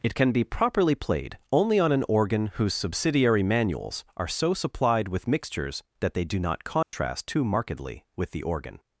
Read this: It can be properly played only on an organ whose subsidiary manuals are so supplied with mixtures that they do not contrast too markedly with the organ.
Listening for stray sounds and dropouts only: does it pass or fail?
fail